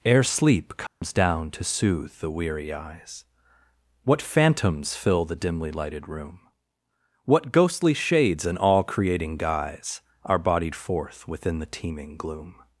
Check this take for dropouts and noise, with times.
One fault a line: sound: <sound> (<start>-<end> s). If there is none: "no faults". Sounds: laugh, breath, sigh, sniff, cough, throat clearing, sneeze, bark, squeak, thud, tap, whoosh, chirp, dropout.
sound: dropout (0.9-1.0 s)